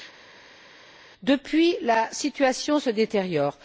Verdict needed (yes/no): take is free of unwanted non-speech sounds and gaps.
yes